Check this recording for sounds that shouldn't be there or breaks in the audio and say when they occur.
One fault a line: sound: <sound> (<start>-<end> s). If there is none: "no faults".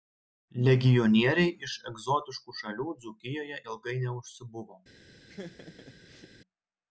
sound: laugh (5.3-6.3 s)